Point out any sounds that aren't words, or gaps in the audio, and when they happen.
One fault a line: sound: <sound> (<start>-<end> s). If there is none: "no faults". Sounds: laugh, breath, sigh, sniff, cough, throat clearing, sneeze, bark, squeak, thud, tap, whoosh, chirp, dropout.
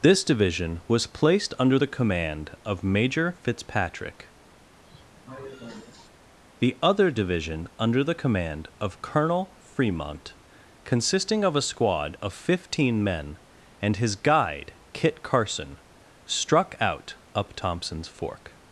sound: cough (4.8-6.1 s)